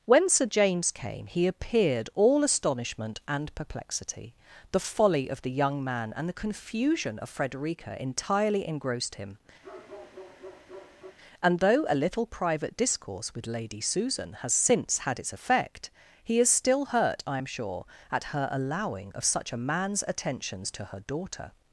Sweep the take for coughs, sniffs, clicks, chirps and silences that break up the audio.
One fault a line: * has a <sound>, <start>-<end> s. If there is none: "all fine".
* has a bark, 9.6-11.2 s